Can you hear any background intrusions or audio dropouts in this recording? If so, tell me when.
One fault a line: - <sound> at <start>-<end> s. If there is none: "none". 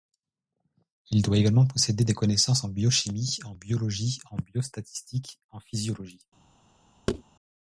- thud at 7.1-7.2 s